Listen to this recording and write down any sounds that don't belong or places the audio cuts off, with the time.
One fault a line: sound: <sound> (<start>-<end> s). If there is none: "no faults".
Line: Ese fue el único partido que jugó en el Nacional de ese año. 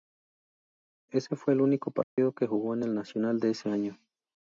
sound: dropout (2.0-2.2 s)